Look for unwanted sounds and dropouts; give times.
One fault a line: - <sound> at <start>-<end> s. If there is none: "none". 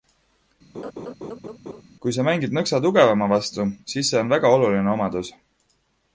- laugh at 0.7-1.8 s